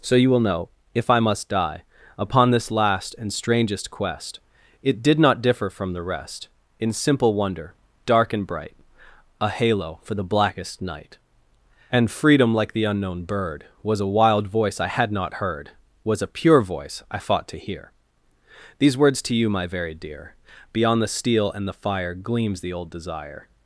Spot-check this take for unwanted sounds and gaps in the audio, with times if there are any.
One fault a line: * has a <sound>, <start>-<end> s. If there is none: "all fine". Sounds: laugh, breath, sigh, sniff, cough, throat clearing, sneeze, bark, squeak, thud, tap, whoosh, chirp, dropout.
all fine